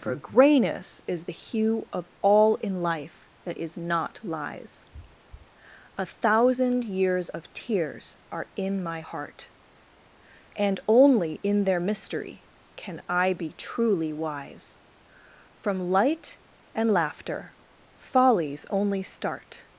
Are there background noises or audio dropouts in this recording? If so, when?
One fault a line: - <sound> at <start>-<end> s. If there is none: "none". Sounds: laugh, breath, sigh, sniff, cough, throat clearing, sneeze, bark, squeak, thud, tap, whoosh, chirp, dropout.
none